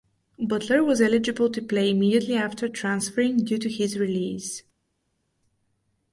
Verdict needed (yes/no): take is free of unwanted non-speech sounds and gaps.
yes